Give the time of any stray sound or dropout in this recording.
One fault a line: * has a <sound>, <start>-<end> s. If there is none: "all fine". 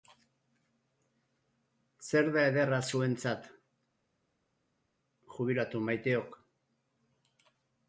all fine